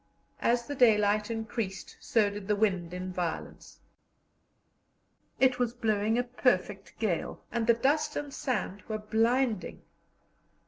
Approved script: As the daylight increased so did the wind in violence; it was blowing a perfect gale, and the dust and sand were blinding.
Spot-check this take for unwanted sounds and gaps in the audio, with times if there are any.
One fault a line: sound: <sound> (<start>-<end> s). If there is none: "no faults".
no faults